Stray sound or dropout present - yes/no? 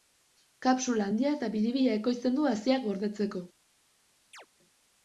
yes